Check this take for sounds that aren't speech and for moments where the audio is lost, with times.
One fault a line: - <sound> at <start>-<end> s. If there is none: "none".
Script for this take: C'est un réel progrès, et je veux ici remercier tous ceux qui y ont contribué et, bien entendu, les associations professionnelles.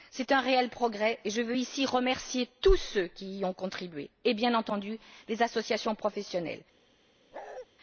- bark at 7.3-7.7 s